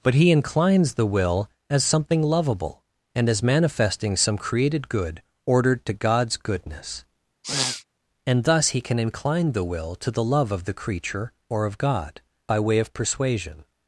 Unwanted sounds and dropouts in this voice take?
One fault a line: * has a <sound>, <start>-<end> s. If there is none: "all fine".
* has a sniff, 7.4-7.8 s